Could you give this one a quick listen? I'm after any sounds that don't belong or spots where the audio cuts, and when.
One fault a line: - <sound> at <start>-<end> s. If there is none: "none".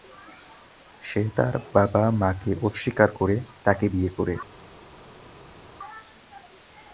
none